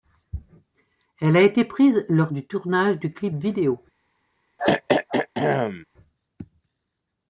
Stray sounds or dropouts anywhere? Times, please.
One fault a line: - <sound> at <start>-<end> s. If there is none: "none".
- throat clearing at 4.6-5.8 s